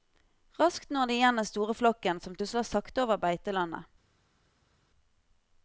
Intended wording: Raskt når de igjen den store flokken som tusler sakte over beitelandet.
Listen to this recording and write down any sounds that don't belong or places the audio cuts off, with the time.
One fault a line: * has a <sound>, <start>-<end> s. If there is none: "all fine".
all fine